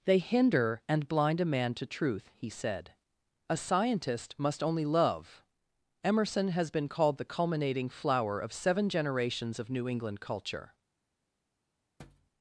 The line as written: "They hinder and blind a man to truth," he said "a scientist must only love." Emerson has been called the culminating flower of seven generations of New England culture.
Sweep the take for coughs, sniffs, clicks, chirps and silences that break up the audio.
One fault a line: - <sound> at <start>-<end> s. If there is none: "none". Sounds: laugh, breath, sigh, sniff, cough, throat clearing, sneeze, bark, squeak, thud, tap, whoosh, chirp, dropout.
- thud at 12.0-12.3 s